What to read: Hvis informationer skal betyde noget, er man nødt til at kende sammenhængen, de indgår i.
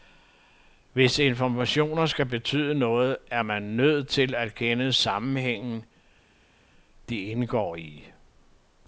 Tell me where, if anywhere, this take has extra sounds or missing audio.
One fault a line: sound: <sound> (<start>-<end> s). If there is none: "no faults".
no faults